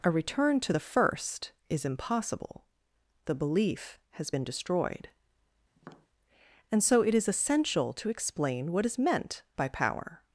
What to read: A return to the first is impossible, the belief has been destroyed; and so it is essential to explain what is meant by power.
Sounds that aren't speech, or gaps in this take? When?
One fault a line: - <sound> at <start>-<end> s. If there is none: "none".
- tap at 5.8-6.1 s